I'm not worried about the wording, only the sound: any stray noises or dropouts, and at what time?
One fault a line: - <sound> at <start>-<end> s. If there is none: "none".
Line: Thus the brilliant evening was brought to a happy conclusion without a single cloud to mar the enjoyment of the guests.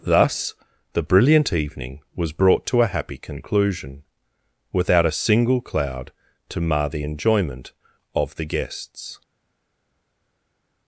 none